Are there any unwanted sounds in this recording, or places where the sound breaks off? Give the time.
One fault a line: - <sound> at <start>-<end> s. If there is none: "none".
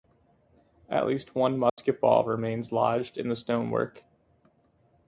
- dropout at 1.7-1.8 s